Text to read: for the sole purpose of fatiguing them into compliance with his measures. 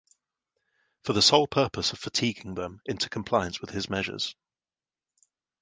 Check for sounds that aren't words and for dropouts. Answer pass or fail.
pass